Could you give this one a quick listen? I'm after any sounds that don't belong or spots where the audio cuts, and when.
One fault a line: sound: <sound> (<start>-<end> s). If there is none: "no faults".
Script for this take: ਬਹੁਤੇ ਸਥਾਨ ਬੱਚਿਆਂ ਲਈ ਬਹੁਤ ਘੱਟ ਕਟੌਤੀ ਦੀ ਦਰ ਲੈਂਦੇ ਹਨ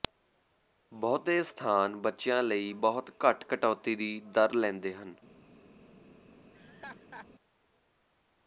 sound: laugh (6.5-7.3 s)